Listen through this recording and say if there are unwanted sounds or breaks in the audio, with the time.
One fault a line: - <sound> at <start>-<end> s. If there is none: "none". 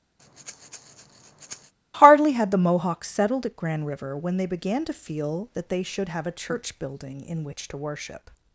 - breath at 0.2-1.7 s